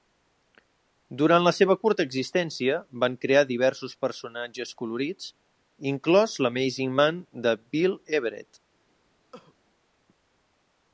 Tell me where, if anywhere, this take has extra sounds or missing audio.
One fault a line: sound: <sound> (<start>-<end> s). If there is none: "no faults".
sound: cough (9.3-9.5 s)